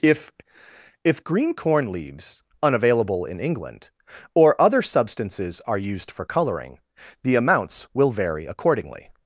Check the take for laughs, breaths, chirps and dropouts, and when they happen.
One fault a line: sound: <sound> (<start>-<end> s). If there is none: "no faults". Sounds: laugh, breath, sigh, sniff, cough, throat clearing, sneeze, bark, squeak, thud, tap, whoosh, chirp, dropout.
no faults